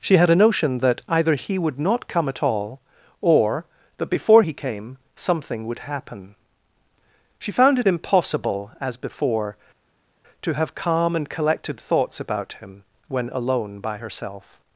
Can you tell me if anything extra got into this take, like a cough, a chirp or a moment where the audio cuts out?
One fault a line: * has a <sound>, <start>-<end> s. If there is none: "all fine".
all fine